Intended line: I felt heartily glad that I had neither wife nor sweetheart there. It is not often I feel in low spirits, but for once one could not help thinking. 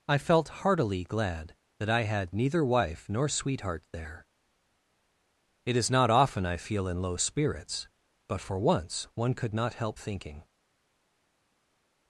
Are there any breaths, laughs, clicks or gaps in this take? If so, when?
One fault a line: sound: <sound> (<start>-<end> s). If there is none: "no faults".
no faults